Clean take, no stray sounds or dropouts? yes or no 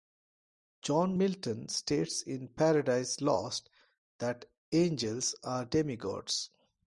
yes